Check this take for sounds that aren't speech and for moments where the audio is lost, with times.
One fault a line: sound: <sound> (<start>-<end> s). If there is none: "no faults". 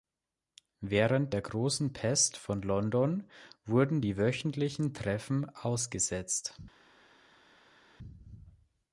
no faults